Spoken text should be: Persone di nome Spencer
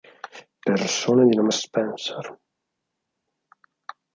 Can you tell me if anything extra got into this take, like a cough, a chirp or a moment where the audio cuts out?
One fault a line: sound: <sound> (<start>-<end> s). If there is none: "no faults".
no faults